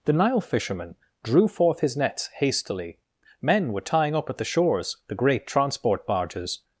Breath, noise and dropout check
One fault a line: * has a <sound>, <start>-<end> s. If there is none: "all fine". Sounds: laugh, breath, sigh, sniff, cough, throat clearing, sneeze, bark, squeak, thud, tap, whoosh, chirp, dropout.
all fine